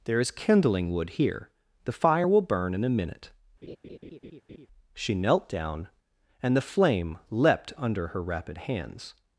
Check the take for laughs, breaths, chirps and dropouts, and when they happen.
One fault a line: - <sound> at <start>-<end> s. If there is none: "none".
- laugh at 3.6-4.7 s